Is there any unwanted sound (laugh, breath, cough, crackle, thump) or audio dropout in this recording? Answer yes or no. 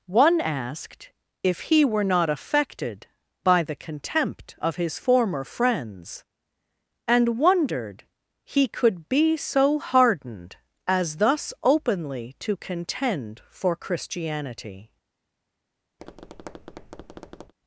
yes